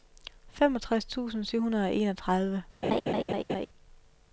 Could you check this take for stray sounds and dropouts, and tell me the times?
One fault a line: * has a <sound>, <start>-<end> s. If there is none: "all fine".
* has a laugh, 2.8-3.7 s